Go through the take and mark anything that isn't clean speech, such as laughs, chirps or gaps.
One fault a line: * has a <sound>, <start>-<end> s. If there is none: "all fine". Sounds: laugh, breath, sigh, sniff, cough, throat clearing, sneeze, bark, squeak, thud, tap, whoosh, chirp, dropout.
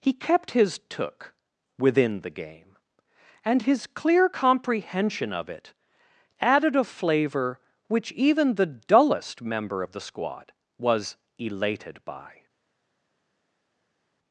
all fine